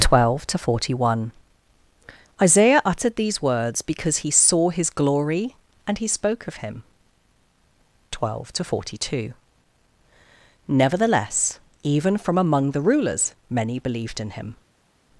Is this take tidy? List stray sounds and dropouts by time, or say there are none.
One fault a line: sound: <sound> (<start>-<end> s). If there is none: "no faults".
no faults